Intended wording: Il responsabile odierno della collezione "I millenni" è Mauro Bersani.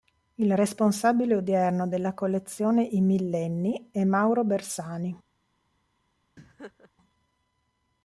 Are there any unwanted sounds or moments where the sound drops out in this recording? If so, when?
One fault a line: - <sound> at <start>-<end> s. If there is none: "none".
- laugh at 6.4-6.9 s